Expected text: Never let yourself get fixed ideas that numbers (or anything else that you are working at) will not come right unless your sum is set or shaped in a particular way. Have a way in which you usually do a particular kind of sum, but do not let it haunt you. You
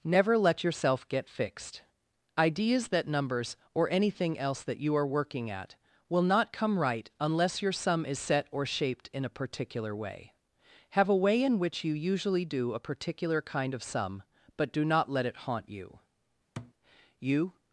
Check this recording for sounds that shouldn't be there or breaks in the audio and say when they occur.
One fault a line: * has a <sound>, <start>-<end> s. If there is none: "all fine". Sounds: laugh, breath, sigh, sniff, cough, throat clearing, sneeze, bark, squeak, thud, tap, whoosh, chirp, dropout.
* has a thud, 16.6-16.7 s